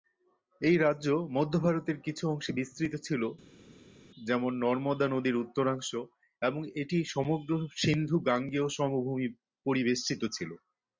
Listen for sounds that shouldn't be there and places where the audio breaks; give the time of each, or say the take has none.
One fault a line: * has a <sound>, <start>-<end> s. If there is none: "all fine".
all fine